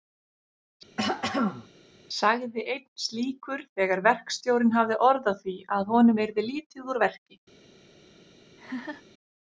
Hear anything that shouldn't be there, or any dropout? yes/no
yes